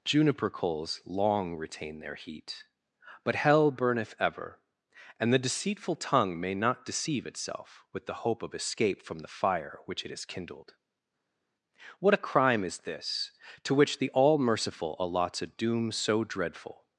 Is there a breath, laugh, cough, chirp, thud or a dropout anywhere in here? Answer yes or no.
no